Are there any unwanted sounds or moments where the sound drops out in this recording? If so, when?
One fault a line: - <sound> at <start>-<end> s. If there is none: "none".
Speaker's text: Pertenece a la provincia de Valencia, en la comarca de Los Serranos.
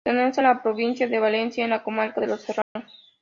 - dropout at 2.6-2.8 s